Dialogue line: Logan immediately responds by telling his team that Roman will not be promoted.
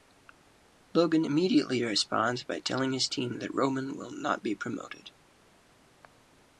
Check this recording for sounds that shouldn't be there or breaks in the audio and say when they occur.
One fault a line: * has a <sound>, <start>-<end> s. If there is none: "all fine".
all fine